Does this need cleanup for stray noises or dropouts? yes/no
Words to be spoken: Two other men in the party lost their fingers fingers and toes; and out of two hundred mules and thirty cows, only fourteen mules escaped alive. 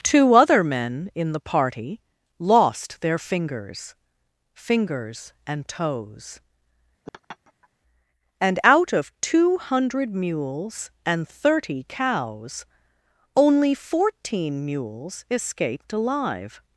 yes